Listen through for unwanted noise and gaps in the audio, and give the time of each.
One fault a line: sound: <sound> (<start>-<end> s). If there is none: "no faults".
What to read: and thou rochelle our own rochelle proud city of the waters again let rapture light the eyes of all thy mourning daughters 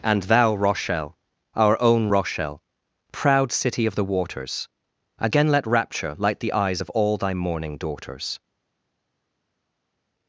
no faults